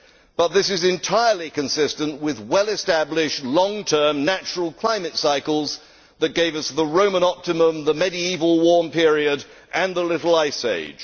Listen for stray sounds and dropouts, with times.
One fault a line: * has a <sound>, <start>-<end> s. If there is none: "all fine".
all fine